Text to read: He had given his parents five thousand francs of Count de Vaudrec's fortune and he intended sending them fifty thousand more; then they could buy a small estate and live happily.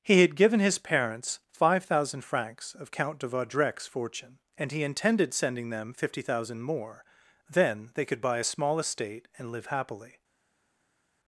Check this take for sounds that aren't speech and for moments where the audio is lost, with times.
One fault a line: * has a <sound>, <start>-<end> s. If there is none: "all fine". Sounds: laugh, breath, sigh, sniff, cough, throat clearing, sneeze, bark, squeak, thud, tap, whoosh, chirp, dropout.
all fine